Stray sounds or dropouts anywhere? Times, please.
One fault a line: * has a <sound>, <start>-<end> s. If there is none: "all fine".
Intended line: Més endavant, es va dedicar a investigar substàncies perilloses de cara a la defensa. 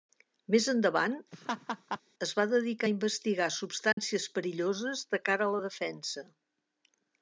* has a laugh, 1.3-2.0 s
* has a dropout, 3.9-4.0 s